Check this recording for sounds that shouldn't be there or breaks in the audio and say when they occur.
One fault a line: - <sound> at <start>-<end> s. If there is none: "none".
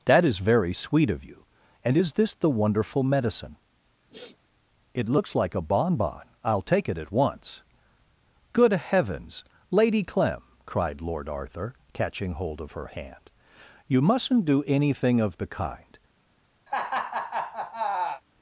- sniff at 4.1-4.4 s
- laugh at 16.7-18.2 s